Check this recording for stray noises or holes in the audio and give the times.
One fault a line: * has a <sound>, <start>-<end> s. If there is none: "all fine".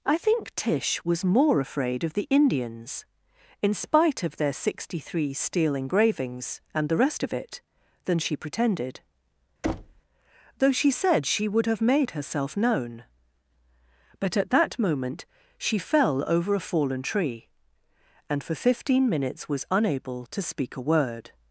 * has a thud, 9.6-10.0 s